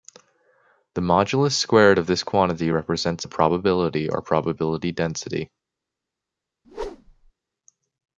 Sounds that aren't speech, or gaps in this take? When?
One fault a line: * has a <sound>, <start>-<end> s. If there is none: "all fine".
* has a whoosh, 6.6-7.3 s